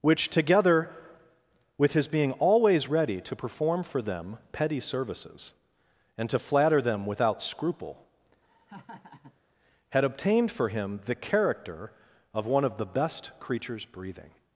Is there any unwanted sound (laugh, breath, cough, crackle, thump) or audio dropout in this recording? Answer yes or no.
yes